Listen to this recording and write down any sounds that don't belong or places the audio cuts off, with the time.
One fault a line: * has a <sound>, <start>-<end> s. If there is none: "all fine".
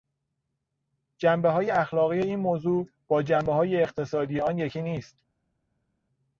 all fine